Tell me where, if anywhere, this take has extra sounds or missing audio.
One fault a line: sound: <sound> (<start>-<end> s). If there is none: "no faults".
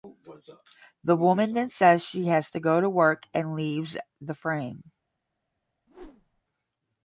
sound: whoosh (5.9-6.4 s)